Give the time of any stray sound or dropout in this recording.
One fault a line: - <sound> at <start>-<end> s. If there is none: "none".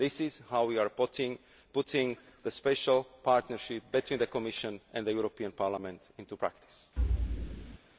- thud at 7.0-7.8 s